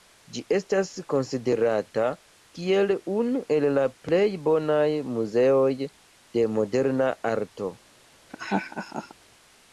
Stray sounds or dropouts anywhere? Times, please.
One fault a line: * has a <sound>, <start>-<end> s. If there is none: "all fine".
* has a laugh, 8.3-9.1 s